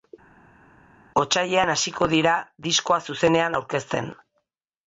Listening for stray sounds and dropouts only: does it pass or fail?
pass